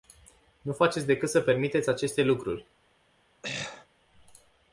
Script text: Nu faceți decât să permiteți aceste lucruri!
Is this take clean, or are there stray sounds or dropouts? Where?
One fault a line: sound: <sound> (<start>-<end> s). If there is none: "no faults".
sound: throat clearing (3.4-3.9 s)